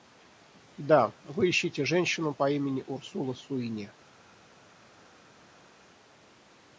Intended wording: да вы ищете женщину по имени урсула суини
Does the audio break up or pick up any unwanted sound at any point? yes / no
no